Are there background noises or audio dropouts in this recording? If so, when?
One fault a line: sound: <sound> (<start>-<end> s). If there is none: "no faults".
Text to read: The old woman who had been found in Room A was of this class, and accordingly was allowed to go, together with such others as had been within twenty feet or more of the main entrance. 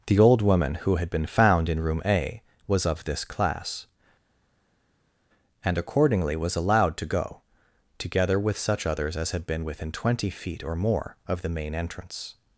no faults